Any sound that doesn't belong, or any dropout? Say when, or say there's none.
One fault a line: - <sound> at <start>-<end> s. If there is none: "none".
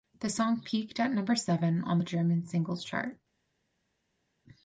none